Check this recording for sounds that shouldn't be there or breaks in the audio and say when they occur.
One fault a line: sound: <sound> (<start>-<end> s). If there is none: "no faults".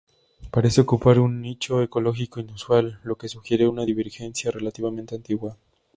no faults